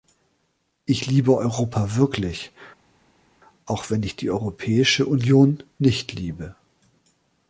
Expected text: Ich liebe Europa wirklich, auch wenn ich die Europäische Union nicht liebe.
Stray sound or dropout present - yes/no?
no